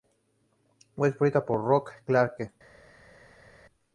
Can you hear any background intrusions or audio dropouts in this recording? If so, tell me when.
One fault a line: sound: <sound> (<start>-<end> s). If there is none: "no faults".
no faults